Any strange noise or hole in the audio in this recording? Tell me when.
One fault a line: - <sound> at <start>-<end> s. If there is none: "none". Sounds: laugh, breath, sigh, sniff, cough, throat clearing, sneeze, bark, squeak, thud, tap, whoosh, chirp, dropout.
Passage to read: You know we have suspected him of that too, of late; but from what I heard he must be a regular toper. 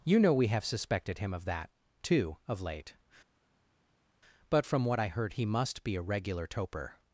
none